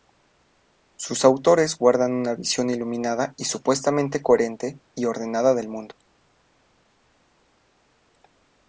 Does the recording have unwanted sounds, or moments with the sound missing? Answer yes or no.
no